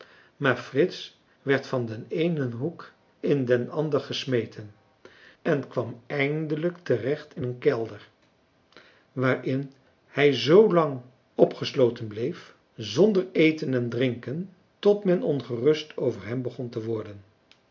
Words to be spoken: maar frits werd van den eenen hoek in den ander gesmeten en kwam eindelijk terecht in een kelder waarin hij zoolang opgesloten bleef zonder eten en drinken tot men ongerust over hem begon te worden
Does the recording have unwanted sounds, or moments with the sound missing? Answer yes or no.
no